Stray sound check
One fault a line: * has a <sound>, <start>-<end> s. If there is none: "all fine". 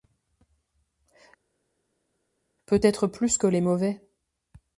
all fine